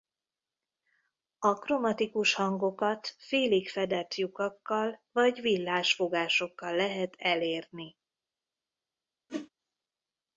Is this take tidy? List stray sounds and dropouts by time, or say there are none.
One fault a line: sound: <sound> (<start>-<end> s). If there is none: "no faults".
sound: whoosh (9.3-9.5 s)